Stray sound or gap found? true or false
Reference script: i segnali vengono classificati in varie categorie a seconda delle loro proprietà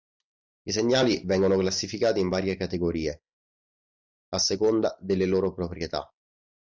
false